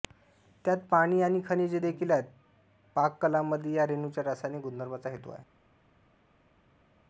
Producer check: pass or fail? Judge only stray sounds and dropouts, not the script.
pass